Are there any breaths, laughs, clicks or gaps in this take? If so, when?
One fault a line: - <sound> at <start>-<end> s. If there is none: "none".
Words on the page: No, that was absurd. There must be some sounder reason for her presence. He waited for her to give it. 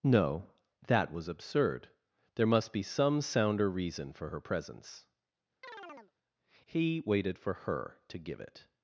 - chirp at 5.6-6.1 s